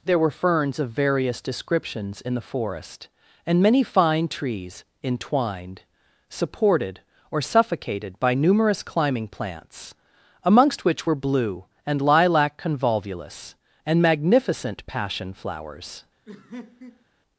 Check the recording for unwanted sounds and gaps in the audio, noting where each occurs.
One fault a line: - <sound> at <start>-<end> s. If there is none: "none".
- laugh at 16.3-17.1 s